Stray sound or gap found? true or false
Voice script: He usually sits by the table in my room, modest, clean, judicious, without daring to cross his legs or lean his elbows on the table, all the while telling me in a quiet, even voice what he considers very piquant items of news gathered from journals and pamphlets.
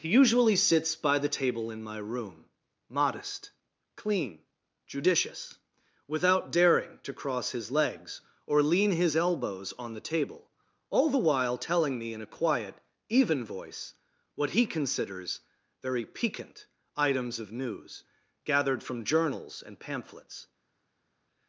false